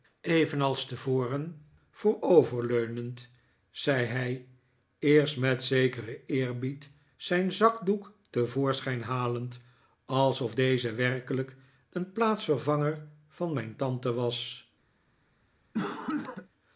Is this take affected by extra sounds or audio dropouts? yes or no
yes